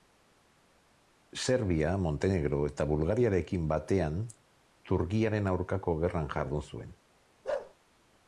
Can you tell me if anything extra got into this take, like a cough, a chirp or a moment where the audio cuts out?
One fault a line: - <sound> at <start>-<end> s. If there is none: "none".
- bark at 7.4-7.7 s